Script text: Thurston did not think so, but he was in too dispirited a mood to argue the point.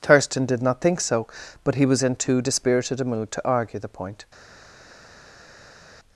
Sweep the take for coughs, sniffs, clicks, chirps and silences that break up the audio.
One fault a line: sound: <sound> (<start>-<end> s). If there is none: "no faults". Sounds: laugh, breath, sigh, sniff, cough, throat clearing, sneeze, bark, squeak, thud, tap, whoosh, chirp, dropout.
no faults